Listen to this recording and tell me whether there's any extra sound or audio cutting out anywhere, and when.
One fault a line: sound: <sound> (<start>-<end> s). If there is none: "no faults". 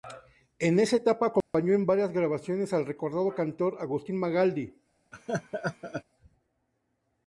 sound: dropout (1.4-1.5 s)
sound: laugh (5.1-6.0 s)